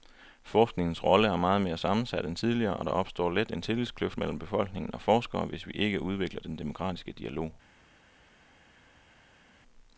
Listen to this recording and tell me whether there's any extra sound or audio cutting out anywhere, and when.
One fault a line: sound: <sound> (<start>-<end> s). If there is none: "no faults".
no faults